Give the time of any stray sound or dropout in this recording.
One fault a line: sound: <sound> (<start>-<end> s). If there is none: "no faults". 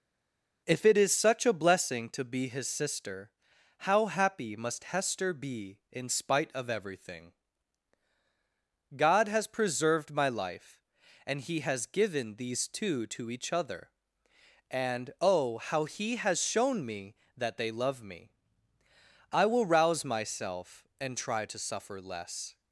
no faults